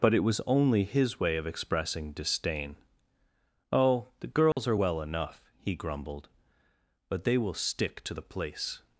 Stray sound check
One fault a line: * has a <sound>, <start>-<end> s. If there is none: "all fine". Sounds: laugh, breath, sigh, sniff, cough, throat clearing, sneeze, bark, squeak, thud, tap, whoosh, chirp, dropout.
* has a dropout, 4.5-4.6 s